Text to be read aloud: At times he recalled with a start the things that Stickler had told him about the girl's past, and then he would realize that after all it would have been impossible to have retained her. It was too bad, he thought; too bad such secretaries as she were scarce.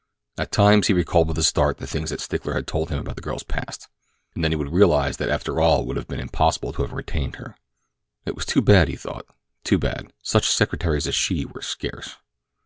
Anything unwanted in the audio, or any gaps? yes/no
no